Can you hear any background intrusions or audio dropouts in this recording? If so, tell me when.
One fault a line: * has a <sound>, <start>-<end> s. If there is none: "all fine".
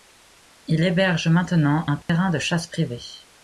* has a dropout, 2.0-2.1 s